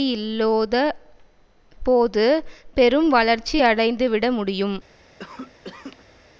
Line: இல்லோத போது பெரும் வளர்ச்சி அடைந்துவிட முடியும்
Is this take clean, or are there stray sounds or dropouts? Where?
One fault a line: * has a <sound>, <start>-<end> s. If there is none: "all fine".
* has a cough, 5.2-6.2 s